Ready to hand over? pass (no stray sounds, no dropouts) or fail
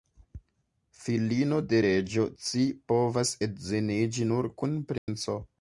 fail